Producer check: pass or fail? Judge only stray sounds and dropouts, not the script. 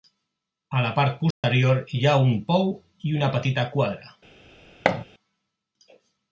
fail